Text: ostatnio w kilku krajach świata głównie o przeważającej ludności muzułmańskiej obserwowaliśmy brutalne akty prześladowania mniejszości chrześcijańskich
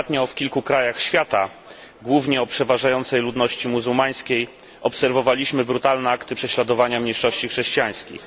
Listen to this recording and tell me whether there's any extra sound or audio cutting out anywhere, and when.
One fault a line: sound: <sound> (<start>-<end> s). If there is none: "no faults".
no faults